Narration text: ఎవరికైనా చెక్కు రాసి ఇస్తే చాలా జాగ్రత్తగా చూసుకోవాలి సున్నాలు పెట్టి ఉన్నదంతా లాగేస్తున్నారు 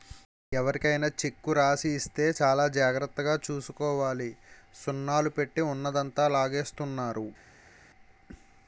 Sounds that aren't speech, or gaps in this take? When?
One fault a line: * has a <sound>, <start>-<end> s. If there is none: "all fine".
all fine